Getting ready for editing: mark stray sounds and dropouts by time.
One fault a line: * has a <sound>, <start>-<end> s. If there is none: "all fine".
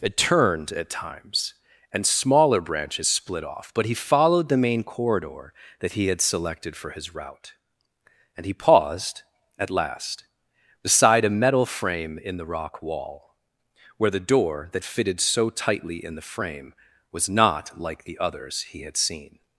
all fine